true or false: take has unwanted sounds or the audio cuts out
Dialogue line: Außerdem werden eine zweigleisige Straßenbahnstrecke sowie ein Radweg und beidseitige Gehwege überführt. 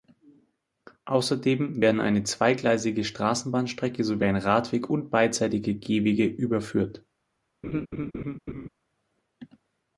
true